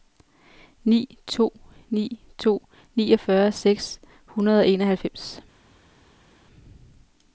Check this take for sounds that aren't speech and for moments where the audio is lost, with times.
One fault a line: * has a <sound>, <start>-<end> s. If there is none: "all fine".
all fine